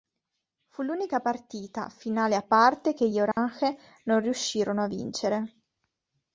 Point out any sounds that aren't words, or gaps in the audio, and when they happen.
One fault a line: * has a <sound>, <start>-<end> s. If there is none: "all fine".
* has a dropout, 3.3-3.4 s